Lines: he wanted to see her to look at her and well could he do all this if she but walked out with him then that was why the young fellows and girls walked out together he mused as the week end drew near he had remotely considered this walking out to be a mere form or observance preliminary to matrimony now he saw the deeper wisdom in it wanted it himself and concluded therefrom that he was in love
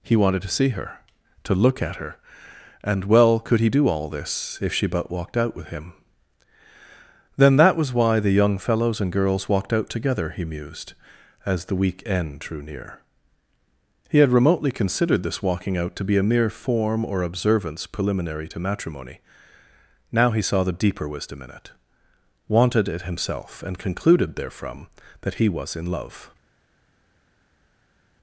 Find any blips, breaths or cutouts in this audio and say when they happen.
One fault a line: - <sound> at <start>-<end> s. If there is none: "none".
none